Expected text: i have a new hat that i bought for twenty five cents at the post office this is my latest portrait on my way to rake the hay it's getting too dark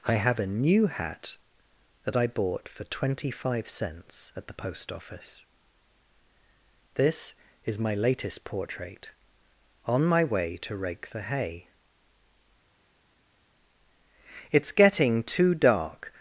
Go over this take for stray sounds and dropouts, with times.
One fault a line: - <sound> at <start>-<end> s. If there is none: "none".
none